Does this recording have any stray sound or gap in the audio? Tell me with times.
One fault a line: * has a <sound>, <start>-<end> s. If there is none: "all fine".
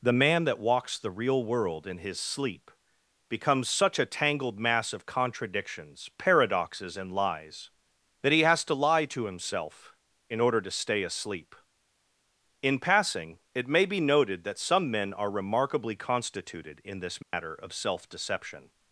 * has a dropout, 17.2-17.3 s